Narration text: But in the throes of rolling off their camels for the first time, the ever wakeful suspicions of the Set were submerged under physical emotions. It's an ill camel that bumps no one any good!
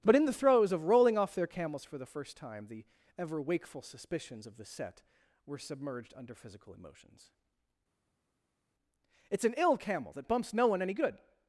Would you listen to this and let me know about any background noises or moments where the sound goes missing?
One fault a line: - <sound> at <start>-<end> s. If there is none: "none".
none